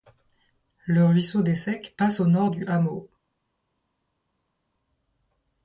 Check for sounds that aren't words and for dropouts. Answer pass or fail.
pass